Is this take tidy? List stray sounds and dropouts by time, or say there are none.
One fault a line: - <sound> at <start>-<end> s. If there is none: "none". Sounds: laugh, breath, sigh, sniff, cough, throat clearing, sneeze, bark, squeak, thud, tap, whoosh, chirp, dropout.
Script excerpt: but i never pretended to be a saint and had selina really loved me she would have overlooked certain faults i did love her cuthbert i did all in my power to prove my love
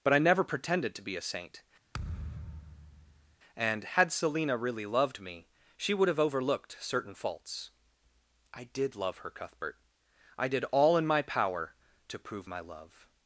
- thud at 1.9-3.4 s